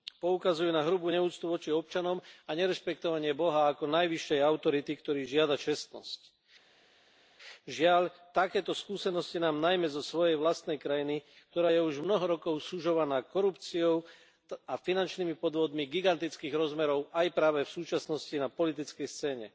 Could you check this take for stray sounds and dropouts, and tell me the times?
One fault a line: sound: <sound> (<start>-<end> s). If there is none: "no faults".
no faults